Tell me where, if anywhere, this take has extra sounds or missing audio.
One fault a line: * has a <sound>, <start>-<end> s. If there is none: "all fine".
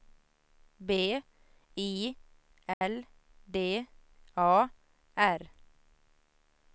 * has a dropout, 2.7-2.8 s